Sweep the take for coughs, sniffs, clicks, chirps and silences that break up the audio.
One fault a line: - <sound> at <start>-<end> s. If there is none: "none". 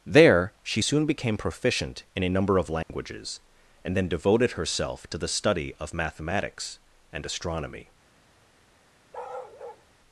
- dropout at 2.8-2.9 s
- bark at 9.1-9.9 s